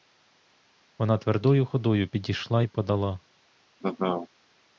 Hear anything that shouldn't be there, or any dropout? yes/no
yes